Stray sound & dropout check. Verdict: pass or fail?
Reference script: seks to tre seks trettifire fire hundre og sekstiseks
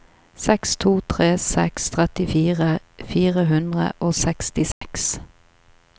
fail